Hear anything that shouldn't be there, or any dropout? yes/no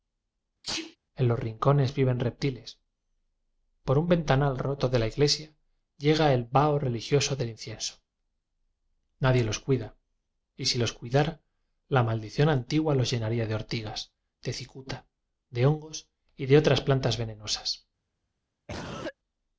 yes